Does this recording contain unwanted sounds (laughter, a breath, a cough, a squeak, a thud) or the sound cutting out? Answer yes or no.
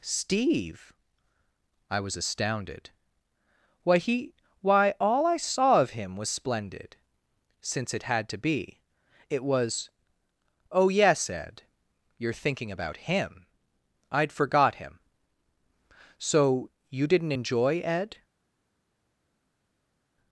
no